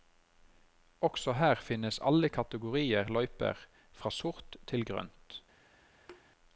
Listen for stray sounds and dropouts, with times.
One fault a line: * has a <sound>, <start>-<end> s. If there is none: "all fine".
* has a thud, 6.1-6.2 s